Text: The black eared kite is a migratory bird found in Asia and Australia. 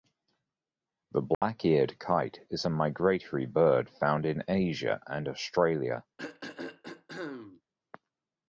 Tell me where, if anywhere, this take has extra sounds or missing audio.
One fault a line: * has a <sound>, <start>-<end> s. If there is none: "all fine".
* has a dropout, 1.3-1.4 s
* has a throat clearing, 6.2-7.6 s